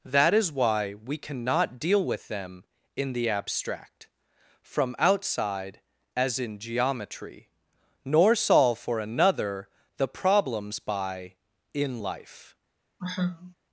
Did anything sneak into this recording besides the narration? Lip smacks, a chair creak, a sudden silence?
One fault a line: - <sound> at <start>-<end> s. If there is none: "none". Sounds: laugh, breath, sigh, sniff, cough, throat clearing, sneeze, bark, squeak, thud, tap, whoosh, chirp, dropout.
- sigh at 13.0-13.5 s